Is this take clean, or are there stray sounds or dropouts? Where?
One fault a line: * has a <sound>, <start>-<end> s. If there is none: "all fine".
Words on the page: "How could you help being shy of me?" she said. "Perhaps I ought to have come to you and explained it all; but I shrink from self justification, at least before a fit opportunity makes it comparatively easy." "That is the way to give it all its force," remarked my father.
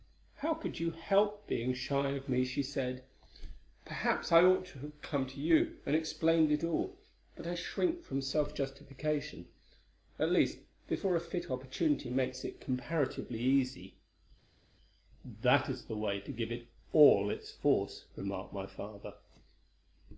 all fine